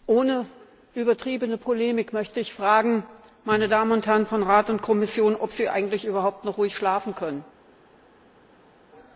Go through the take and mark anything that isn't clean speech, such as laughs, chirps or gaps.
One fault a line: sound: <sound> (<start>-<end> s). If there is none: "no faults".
no faults